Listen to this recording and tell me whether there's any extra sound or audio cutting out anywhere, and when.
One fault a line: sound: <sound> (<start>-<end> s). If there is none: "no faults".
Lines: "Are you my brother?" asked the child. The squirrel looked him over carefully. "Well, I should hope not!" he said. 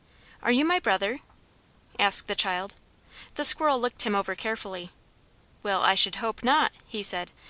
no faults